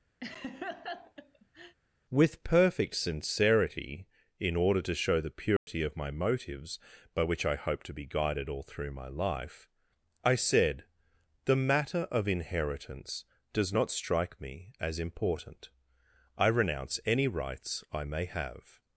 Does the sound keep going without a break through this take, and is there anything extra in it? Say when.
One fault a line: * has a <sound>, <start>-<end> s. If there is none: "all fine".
* has a laugh, 0.2-1.8 s
* has a dropout, 5.6-5.7 s